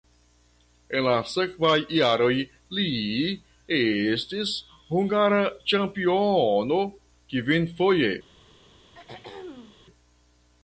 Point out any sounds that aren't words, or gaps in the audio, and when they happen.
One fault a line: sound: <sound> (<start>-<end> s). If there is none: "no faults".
sound: throat clearing (8.9-9.8 s)